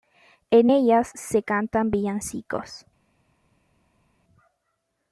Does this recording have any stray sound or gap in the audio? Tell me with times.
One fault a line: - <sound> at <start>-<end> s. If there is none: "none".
none